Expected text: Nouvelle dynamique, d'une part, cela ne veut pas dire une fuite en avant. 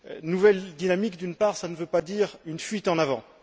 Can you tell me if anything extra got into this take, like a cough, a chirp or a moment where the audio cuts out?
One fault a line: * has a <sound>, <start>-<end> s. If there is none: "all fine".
all fine